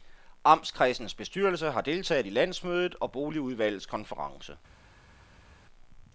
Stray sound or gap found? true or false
false